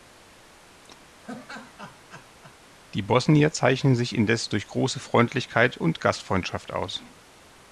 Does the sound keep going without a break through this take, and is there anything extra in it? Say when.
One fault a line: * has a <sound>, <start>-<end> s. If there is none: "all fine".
* has a laugh, 1.2-2.6 s